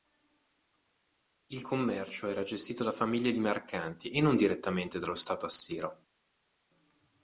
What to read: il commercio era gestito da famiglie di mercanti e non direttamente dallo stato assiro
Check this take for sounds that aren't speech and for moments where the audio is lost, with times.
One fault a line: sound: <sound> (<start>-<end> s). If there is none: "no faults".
no faults